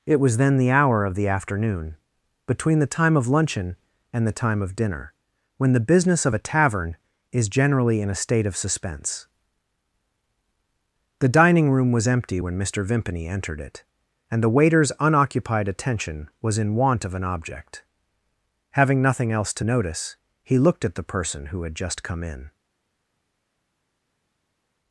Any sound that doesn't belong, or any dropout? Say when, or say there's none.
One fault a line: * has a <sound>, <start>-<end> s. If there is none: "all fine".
all fine